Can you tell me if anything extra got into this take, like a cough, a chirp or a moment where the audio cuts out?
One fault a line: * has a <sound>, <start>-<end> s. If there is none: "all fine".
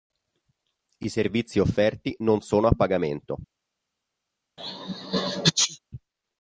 * has a sneeze, 4.6-5.8 s